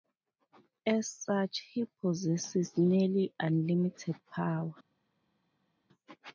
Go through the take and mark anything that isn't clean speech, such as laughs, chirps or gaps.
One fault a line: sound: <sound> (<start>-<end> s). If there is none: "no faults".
no faults